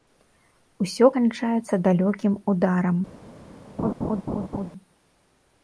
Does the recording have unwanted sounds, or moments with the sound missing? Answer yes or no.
yes